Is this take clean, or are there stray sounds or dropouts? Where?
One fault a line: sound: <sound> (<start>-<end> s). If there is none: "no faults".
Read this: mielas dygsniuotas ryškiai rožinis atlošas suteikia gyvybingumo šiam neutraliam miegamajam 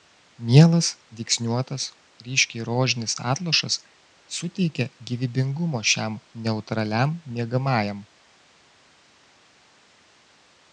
no faults